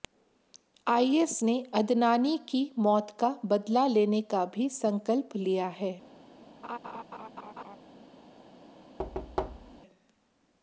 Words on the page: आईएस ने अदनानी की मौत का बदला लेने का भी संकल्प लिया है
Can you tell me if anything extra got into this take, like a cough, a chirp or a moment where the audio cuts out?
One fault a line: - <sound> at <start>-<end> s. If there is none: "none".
- laugh at 6.6-7.8 s
- thud at 9.0-9.8 s